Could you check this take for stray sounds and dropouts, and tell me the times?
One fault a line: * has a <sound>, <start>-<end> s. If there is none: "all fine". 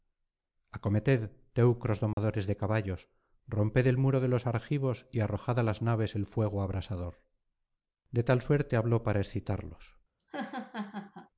* has a dropout, 2.1-2.2 s
* has a laugh, 10.2-11.3 s